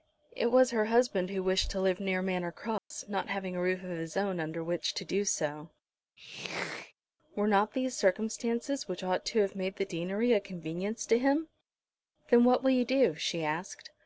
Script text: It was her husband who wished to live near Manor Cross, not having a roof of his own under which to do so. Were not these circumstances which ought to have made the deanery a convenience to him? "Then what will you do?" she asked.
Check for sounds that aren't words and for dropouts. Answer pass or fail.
fail